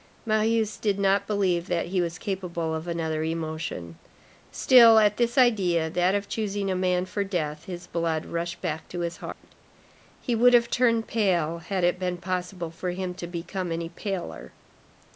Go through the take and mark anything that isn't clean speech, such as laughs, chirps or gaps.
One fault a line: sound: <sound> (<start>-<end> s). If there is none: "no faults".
sound: dropout (9.3-9.4 s)